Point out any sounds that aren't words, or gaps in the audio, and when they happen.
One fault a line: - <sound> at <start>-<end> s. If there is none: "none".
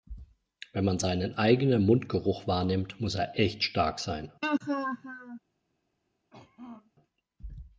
- laugh at 4.4-5.4 s
- throat clearing at 6.3-6.9 s